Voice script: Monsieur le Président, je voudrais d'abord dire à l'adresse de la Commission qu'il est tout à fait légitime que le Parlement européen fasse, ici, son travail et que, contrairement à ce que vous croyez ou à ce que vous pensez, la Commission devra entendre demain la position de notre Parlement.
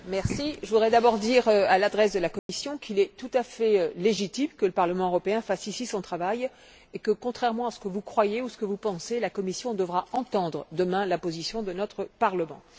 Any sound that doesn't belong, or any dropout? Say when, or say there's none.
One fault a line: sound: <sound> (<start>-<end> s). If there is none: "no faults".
sound: dropout (2.4-2.5 s)